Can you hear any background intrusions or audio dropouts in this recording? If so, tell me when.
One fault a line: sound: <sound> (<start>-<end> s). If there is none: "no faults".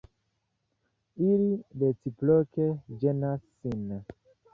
no faults